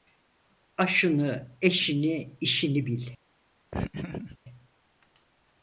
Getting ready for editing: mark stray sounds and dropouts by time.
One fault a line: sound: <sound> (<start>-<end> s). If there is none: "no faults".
sound: laugh (3.7-4.4 s)